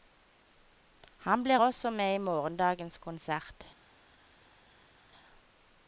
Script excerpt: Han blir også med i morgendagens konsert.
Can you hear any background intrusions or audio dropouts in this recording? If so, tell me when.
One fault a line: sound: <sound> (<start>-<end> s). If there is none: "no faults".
no faults